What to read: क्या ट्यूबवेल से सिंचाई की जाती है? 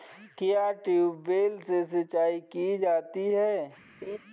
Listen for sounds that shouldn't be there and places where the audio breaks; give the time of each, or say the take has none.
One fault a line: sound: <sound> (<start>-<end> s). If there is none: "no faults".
sound: laugh (4.0-4.2 s)